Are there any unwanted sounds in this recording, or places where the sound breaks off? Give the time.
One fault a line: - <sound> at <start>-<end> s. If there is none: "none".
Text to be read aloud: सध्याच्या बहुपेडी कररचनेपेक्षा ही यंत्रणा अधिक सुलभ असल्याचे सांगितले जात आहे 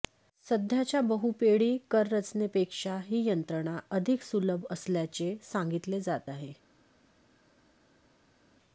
none